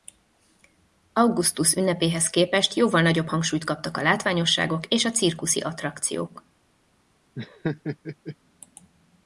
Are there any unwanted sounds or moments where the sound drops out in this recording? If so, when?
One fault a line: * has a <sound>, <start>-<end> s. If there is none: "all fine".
* has a laugh, 7.4-8.4 s